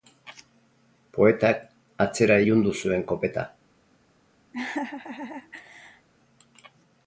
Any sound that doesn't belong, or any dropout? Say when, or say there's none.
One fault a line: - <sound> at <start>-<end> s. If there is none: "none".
- laugh at 4.5-6.1 s